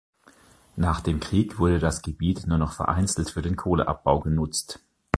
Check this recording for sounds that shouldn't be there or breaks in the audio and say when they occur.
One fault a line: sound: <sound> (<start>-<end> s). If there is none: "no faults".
no faults